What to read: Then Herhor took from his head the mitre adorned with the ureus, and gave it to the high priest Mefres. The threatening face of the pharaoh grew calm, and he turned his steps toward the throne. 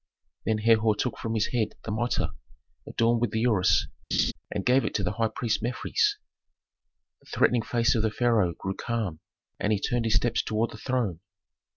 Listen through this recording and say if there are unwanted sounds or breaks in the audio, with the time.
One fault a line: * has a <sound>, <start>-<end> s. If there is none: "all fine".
* has a laugh, 4.1-4.3 s